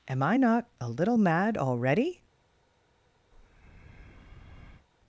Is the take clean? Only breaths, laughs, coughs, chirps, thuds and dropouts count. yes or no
no